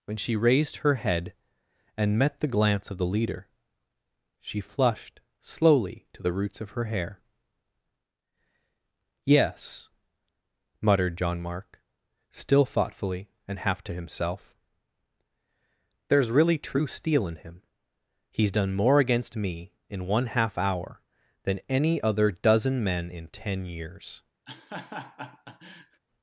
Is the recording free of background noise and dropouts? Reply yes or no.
no